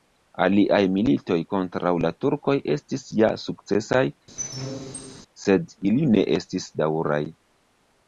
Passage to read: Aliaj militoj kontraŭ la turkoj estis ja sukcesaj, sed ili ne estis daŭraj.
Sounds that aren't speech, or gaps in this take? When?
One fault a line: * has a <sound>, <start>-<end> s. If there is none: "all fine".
* has a squeak, 4.4-5.2 s